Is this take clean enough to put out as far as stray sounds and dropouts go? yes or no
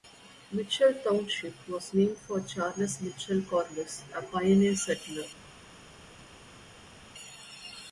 yes